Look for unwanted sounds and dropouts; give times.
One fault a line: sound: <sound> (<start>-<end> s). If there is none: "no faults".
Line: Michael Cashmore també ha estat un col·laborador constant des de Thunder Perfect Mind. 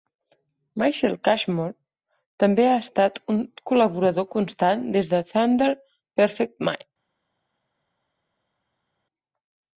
no faults